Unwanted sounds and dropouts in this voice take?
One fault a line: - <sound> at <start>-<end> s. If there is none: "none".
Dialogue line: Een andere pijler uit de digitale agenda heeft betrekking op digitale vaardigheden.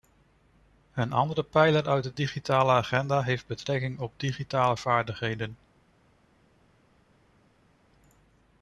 none